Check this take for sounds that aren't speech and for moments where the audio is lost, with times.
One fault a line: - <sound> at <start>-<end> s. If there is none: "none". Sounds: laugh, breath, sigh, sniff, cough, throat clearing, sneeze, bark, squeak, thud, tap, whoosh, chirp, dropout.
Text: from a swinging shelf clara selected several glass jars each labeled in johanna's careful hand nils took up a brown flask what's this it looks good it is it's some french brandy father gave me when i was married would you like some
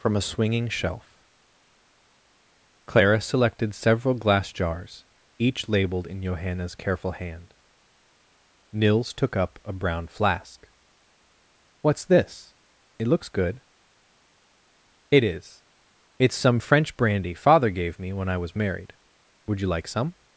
none